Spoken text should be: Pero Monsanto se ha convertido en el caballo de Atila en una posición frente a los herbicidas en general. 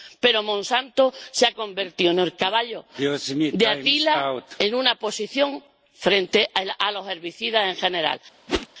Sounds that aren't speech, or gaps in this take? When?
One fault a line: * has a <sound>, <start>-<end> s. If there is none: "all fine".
* has a whoosh, 8.5-8.7 s